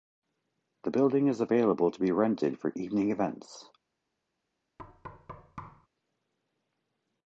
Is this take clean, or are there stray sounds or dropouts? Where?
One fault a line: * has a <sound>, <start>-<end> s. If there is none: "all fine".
* has a thud, 4.8-5.9 s